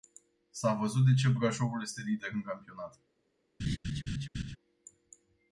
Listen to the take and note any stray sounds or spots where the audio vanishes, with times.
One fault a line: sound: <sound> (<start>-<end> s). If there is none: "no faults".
sound: laugh (3.6-4.6 s)